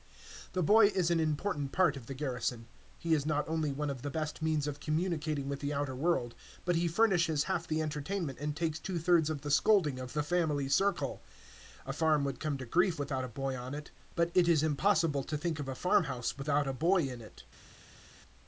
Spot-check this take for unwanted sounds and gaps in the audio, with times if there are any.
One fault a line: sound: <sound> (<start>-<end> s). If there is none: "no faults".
no faults